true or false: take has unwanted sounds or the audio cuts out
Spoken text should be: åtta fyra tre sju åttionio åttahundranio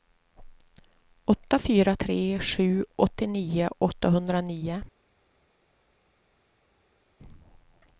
false